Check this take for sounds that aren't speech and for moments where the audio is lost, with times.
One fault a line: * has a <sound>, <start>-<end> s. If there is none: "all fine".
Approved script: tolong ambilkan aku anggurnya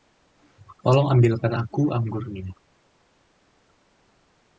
all fine